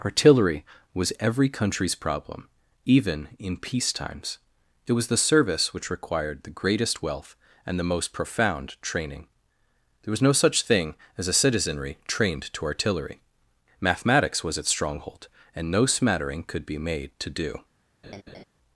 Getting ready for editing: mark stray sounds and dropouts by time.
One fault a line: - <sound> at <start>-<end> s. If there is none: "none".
- laugh at 18.0-18.4 s